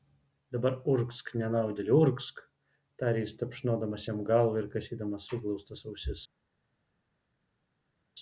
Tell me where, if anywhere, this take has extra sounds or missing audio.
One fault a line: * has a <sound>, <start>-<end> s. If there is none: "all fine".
all fine